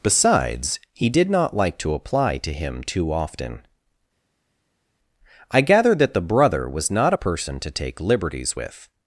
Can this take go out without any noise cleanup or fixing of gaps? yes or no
yes